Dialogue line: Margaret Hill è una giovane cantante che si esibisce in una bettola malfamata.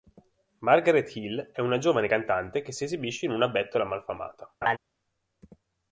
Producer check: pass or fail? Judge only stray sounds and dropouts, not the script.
fail